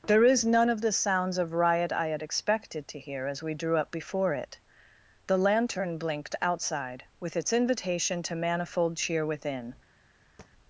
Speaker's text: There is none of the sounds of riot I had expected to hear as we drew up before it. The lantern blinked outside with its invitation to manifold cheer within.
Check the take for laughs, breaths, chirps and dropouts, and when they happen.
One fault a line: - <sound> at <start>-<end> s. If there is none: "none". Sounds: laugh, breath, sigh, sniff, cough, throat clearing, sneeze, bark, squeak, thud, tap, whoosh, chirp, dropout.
- thud at 10.4-10.5 s